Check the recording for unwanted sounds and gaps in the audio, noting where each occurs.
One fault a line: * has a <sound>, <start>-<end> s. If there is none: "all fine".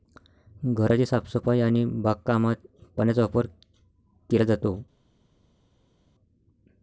all fine